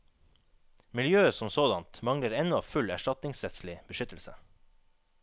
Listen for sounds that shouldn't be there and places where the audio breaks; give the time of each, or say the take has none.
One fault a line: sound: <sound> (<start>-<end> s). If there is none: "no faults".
no faults